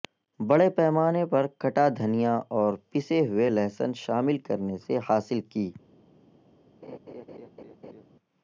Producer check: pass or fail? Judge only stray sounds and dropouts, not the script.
fail